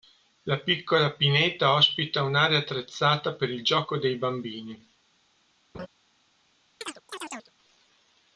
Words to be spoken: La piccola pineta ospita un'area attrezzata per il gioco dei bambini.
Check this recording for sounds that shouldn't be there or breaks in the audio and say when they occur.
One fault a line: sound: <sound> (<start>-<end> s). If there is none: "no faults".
sound: laugh (5.7-5.9 s)
sound: chirp (6.8-7.5 s)